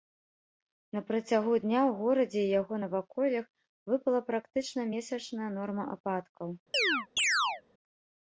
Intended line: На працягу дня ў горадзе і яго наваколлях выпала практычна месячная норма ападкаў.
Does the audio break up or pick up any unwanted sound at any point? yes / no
yes